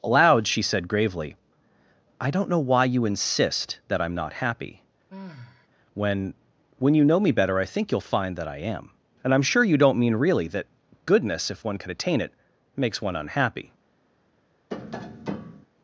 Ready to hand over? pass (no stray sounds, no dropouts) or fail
fail